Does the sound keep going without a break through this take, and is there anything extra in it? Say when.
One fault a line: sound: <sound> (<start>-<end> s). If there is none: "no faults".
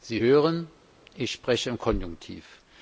no faults